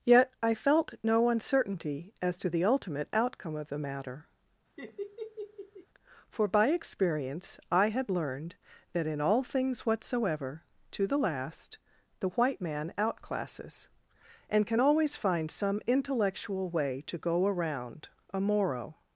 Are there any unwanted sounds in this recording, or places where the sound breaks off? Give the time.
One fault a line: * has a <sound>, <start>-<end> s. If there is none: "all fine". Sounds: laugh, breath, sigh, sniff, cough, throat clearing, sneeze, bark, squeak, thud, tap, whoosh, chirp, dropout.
* has a laugh, 4.8-5.9 s